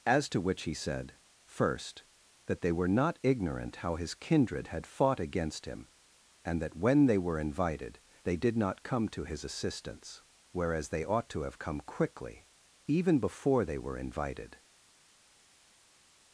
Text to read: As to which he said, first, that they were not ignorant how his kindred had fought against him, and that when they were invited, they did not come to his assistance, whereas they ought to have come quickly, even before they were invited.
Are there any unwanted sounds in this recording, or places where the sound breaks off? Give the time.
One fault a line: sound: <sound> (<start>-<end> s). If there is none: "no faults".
no faults